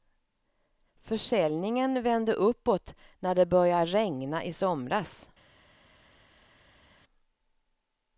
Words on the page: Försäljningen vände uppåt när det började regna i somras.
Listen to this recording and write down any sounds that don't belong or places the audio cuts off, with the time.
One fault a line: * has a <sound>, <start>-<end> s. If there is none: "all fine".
all fine